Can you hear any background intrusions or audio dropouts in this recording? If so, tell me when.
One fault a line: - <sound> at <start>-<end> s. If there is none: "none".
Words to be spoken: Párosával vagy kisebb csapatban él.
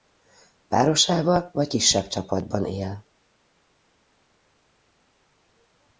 none